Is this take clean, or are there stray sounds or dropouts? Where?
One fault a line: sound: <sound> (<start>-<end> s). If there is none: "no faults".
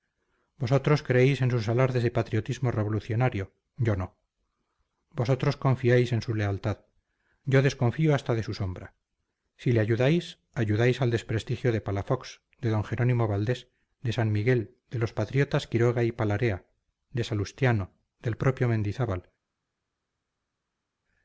no faults